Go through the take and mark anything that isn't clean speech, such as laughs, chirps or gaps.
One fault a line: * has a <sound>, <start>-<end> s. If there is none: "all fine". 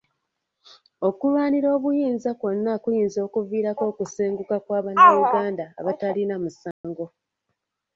* has a dropout, 6.7-6.8 s